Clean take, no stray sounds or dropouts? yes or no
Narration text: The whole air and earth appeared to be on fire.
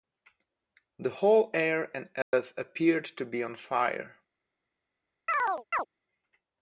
no